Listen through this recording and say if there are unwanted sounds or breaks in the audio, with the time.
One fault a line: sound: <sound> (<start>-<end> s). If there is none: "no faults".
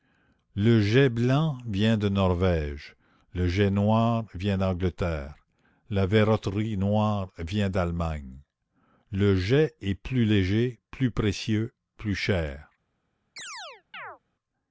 sound: chirp (13.4-14.2 s)